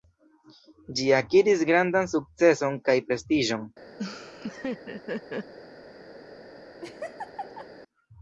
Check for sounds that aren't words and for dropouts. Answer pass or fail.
fail